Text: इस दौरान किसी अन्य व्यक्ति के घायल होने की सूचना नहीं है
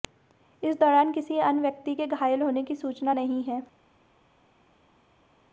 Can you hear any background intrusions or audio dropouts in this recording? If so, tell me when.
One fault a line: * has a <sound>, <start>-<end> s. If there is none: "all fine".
all fine